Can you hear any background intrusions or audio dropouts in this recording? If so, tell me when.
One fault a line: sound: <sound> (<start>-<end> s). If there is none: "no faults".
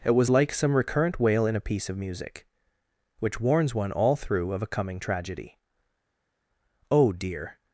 no faults